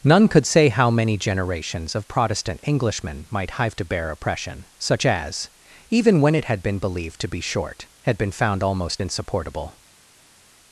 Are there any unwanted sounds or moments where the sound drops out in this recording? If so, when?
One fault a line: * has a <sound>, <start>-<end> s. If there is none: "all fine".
all fine